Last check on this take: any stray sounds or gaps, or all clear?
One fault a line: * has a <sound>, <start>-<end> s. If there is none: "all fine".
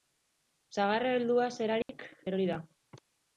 * has a dropout, 1.8-1.9 s